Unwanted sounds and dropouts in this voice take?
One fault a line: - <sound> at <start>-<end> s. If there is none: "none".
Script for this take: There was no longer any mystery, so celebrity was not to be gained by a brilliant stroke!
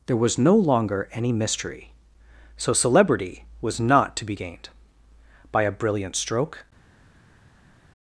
none